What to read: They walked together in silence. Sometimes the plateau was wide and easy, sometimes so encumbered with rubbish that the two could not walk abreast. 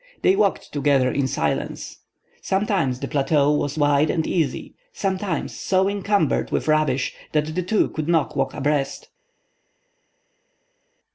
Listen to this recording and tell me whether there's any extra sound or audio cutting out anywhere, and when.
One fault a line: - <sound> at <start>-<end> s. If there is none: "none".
none